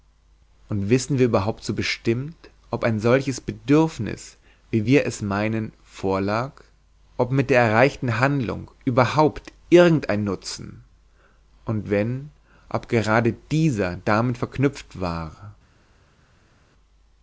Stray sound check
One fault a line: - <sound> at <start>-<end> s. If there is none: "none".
none